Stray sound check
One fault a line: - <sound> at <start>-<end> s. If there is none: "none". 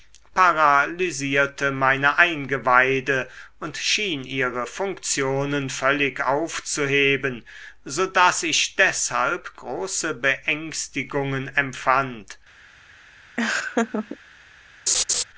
- laugh at 13.4-14.2 s
- laugh at 14.9-15.2 s